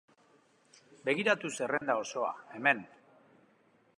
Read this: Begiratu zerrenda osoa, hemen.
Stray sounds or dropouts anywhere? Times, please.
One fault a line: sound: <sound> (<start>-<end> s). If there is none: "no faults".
sound: dropout (1.8-1.8 s)